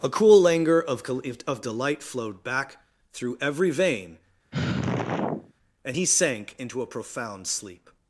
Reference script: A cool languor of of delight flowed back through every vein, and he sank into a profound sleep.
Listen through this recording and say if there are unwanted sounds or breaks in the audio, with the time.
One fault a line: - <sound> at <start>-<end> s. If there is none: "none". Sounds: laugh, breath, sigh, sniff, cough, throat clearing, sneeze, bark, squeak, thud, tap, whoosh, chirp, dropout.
- sigh at 4.5-5.5 s